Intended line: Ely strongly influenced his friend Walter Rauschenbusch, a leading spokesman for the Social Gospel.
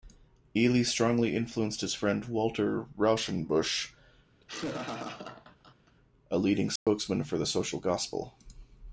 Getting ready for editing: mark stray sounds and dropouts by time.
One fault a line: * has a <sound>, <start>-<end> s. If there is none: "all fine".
* has a laugh, 4.4-6.0 s
* has a dropout, 6.8-6.9 s